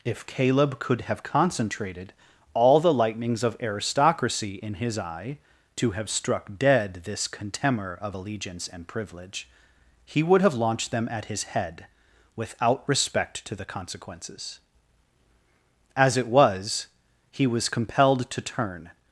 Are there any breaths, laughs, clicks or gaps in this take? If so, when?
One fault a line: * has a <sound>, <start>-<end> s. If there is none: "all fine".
all fine